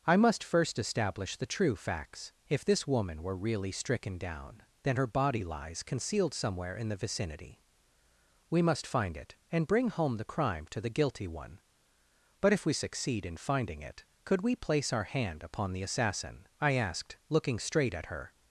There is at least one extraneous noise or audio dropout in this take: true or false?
false